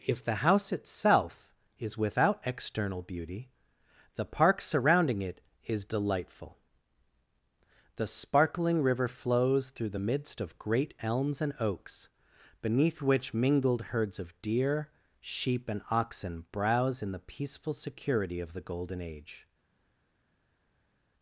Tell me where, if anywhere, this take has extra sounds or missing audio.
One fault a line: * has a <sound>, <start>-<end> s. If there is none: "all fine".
all fine